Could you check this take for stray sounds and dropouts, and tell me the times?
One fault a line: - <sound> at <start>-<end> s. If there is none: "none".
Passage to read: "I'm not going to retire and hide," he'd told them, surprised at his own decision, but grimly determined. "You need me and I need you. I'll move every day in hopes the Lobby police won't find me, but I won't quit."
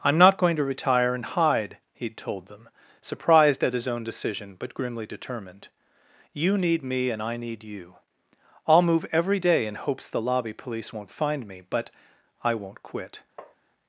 - tap at 13.4-13.6 s